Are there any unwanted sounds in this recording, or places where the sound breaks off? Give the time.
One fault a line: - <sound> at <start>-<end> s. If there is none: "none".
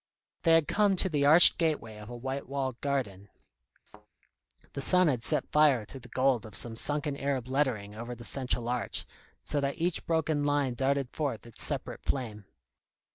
- thud at 3.9-4.1 s